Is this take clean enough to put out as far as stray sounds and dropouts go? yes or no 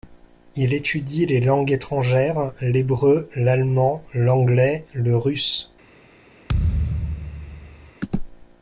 no